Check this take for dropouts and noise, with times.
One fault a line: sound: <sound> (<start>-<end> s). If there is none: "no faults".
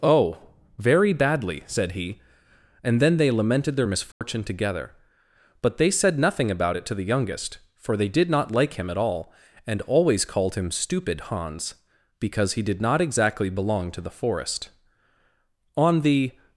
sound: dropout (4.1-4.2 s)